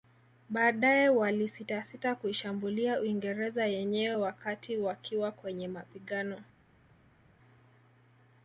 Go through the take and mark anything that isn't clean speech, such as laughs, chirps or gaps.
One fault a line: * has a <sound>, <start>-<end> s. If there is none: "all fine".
all fine